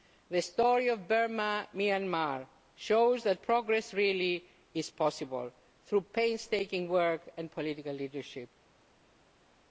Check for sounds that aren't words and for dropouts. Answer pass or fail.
pass